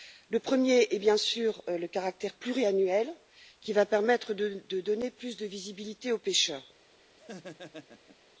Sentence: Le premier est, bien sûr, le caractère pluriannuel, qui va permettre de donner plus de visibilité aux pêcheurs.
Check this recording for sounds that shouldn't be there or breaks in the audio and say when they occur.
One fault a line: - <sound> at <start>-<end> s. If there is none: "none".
- laugh at 7.2-8.3 s